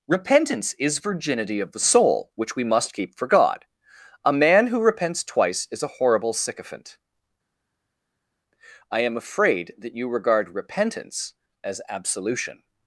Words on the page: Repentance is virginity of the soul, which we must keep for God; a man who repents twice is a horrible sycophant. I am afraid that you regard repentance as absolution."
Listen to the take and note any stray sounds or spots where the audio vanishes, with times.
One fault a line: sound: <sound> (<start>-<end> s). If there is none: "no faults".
no faults